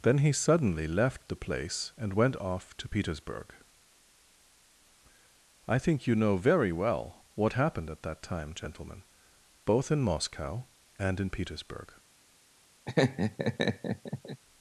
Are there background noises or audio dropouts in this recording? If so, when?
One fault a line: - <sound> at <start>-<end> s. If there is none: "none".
- laugh at 12.9-14.4 s